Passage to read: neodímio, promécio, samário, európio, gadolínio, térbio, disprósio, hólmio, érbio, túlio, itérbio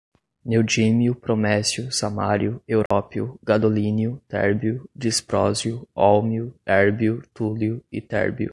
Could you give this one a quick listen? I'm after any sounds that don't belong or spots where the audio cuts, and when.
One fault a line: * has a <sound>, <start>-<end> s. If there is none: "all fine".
* has a dropout, 2.9-2.9 s